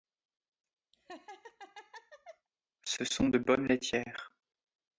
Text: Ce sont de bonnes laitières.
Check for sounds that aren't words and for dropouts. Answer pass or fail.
fail